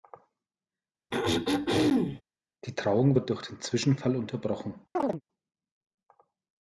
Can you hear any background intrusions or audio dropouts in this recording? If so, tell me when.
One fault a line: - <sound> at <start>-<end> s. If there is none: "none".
- throat clearing at 1.1-2.2 s
- chirp at 4.9-5.2 s